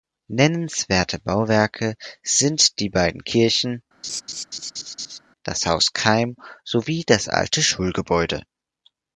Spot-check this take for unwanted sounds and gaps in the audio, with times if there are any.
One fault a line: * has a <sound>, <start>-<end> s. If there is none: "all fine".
* has a laugh, 4.0-5.2 s